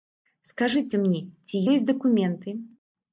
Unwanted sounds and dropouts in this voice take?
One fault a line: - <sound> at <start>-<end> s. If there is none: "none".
none